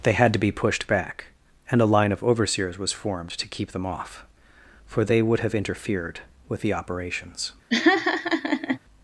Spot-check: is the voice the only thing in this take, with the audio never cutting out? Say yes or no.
no